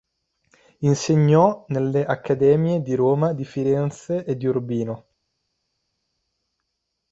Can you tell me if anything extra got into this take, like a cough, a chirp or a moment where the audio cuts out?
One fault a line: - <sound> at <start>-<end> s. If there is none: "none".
none